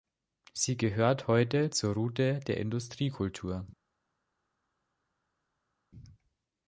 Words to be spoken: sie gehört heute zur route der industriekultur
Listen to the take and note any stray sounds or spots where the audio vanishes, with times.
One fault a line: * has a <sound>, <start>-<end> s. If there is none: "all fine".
all fine